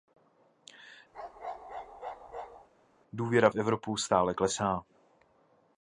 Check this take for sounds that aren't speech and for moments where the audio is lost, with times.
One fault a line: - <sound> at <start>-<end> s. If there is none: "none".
- bark at 1.1-2.7 s